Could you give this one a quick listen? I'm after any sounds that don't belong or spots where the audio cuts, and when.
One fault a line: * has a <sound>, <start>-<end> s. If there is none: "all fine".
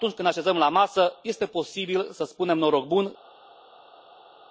all fine